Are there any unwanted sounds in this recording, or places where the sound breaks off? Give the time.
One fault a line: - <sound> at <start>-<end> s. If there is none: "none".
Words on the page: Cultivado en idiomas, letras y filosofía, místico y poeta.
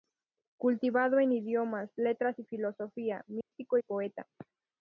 - dropout at 3.4-3.5 s